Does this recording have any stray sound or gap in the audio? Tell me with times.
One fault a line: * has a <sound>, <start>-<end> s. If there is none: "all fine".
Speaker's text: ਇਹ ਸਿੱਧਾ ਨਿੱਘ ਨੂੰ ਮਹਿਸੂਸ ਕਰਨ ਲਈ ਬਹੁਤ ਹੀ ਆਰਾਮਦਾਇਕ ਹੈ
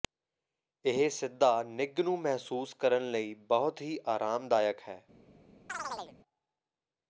* has a chirp, 5.7-6.2 s